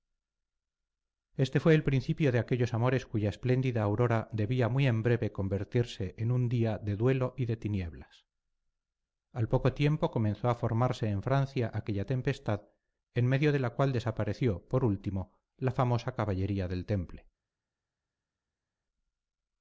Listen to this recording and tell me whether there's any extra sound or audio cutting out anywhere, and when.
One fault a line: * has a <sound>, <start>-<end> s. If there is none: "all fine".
all fine